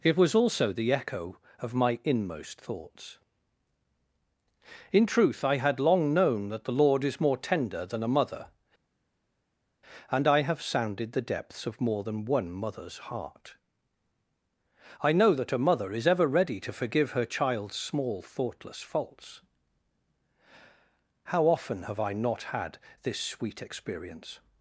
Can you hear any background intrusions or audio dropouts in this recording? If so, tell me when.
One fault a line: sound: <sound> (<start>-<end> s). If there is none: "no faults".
no faults